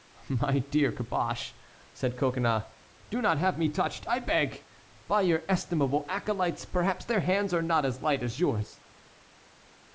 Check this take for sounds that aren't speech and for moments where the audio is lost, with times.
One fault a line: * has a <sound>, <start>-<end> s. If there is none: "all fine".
all fine